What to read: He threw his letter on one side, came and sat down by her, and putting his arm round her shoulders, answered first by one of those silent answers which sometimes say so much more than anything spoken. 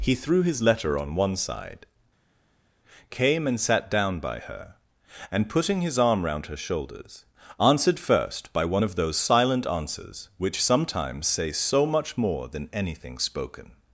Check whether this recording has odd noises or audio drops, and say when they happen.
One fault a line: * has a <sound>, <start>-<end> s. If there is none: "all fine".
all fine